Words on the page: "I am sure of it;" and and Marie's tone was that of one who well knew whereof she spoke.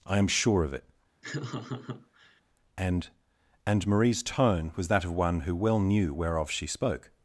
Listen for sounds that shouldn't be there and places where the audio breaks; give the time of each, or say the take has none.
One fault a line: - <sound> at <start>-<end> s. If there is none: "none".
- laugh at 1.2-2.4 s